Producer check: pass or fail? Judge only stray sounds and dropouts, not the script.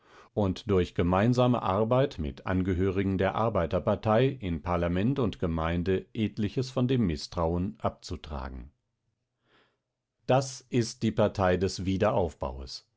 pass